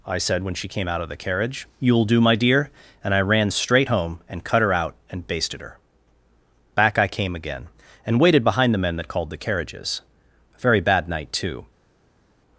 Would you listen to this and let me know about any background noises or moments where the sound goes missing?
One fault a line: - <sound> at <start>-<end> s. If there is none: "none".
none